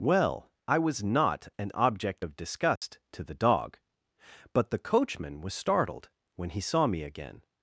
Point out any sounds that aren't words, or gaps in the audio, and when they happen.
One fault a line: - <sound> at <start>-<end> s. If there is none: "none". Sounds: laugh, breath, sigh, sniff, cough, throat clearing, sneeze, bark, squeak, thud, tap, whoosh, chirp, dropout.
- dropout at 2.8-2.8 s